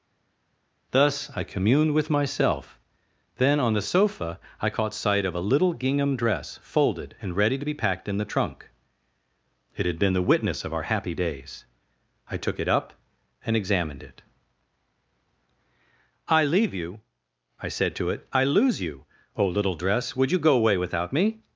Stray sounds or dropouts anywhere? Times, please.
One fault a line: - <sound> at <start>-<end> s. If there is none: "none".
none